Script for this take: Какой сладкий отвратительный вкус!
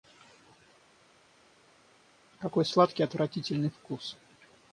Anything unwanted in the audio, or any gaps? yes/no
no